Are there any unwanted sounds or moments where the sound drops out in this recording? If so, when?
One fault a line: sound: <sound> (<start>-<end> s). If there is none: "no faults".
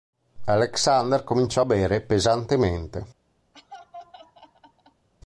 sound: laugh (3.5-5.1 s)